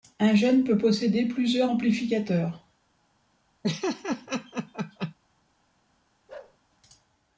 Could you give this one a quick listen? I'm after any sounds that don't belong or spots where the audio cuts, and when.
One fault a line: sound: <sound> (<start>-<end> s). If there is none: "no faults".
sound: laugh (3.6-5.1 s)
sound: bark (6.3-6.6 s)